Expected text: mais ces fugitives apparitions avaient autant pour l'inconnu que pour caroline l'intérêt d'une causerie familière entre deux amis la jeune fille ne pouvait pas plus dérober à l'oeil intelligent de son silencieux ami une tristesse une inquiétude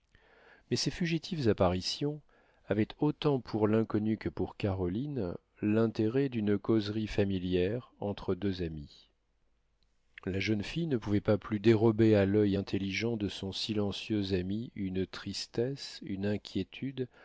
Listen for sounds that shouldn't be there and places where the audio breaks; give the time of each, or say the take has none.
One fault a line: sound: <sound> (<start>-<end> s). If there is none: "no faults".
no faults